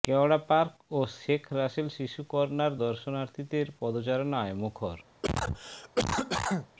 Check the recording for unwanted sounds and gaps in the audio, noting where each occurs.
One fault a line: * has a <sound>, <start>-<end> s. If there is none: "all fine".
* has a cough, 5.2-6.7 s